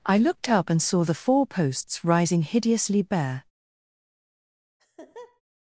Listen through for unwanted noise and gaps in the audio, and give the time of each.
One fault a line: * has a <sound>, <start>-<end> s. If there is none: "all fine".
* has a laugh, 4.8-5.4 s